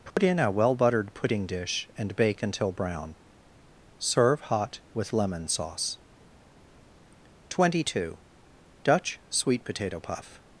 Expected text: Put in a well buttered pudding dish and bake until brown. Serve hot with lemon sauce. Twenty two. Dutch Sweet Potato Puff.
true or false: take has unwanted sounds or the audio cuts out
true